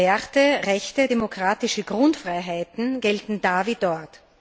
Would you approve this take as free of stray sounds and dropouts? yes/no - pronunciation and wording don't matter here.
yes